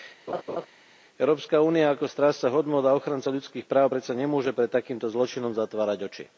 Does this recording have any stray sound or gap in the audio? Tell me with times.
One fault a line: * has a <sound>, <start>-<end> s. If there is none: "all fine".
* has a laugh, 0.3-0.7 s